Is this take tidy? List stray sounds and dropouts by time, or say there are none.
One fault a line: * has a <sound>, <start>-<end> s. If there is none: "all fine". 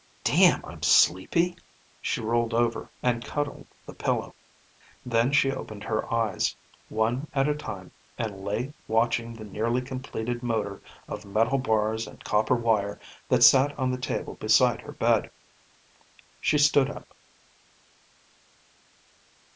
all fine